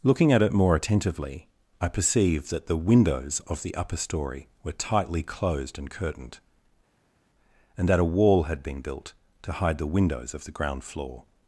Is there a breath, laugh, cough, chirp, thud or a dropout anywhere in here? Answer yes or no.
no